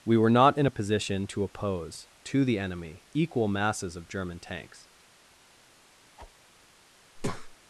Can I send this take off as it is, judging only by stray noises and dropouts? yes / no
no